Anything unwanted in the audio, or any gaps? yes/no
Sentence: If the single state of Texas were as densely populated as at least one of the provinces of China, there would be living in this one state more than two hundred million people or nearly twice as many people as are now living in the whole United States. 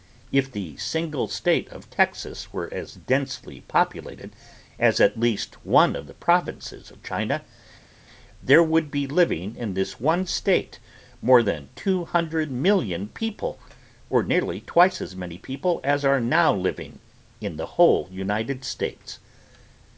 no